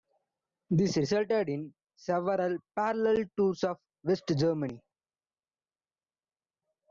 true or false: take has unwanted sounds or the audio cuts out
false